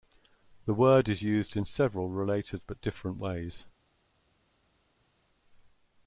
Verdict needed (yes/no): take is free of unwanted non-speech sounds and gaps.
yes